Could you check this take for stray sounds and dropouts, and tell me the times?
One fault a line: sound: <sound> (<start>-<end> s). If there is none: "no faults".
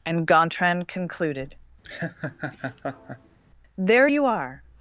sound: laugh (1.8-3.4 s)